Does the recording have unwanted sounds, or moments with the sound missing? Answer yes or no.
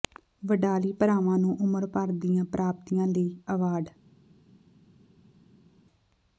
no